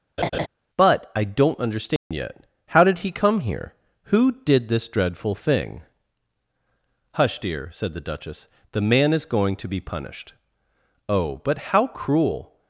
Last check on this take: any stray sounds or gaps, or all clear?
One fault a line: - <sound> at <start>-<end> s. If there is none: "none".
- laugh at 0.2-0.5 s
- dropout at 2.0-2.1 s